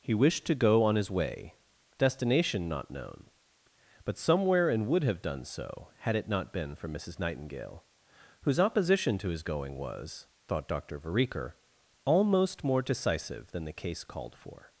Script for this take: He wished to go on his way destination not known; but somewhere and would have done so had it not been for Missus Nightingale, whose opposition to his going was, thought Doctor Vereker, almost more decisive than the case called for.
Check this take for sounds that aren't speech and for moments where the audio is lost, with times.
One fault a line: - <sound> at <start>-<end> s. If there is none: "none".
none